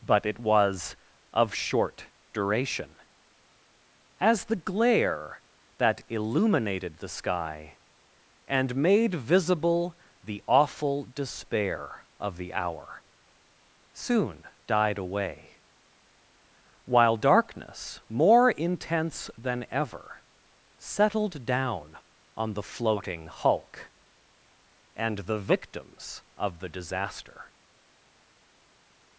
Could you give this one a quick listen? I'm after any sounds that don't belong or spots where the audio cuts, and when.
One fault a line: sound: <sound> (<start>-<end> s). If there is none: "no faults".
no faults